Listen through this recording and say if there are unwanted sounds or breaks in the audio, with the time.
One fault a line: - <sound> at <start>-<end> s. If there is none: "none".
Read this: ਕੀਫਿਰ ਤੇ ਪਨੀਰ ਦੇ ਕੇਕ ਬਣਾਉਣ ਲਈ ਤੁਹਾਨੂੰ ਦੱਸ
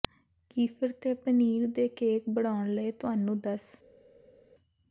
none